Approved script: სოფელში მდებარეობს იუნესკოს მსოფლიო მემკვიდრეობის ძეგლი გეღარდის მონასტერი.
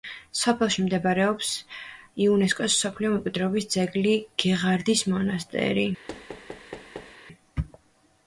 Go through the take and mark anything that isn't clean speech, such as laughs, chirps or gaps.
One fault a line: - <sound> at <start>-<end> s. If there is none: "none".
- thud at 6.1-7.2 s